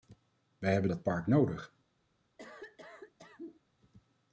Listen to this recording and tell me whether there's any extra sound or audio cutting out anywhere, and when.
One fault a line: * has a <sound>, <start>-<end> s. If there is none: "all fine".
* has a cough, 2.4-3.6 s